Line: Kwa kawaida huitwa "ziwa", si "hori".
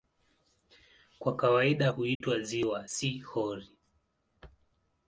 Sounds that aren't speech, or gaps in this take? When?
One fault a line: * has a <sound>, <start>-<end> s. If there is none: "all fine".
* has a dropout, 2.1-2.2 s